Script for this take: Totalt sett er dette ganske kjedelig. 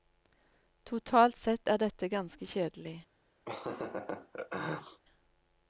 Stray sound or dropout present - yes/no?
yes